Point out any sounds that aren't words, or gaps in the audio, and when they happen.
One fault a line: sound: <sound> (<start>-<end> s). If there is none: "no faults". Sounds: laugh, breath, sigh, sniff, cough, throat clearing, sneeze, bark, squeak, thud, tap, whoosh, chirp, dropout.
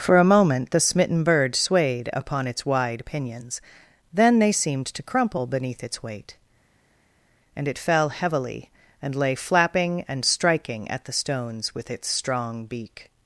no faults